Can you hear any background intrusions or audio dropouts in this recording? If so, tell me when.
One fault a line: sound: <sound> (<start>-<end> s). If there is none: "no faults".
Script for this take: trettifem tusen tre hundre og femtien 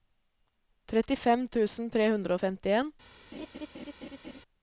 sound: laugh (3.3-4.4 s)